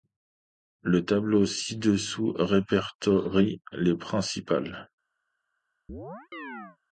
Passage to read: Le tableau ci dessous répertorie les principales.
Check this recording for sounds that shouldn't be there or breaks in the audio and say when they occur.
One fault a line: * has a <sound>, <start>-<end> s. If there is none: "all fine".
* has a chirp, 5.9-6.8 s